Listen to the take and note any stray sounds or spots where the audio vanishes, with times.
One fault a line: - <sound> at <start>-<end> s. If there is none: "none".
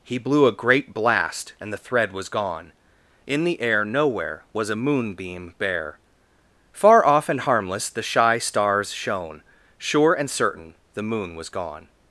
none